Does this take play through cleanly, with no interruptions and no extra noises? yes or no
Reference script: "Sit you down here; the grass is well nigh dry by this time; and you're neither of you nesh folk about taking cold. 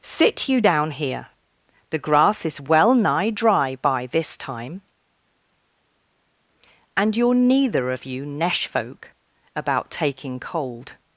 yes